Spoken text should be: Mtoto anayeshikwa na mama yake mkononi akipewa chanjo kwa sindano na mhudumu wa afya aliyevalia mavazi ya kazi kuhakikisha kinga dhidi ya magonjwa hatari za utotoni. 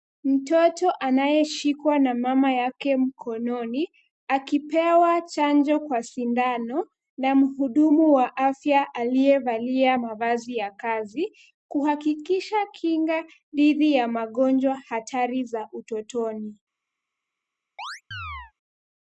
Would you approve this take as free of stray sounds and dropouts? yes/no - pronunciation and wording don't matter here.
no